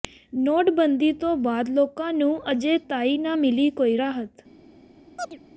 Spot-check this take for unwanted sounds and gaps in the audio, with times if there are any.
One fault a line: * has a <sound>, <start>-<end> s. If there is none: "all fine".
* has a chirp, 5.2-5.4 s